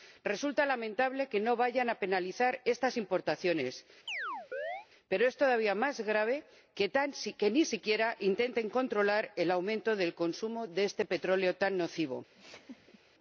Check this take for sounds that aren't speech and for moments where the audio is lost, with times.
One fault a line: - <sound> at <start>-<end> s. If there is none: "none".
- chirp at 4.1-4.9 s
- laugh at 12.3-13.0 s